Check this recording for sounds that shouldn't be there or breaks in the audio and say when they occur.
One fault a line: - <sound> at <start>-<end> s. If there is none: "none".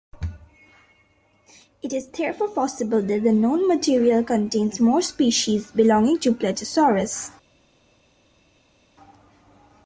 none